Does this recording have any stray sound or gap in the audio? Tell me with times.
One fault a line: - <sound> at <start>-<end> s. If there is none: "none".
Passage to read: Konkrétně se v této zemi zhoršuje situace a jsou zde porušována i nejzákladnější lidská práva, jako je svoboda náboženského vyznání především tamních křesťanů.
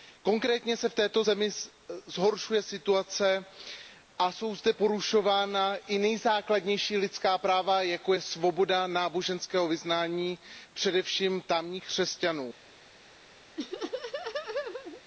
- laugh at 13.6-15.0 s